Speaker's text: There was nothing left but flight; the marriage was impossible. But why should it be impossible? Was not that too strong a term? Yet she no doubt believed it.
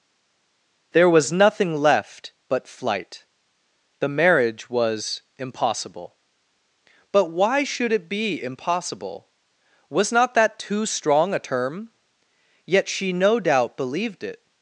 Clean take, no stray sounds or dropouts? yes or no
yes